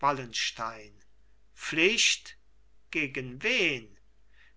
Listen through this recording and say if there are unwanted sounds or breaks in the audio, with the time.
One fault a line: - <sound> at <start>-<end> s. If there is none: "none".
none